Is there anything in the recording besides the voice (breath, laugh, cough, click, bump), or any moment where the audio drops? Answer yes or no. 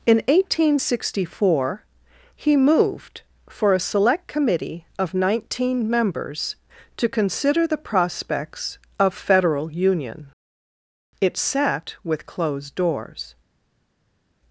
no